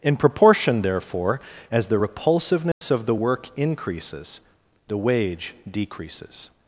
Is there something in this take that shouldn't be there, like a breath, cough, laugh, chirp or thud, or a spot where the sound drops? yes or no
yes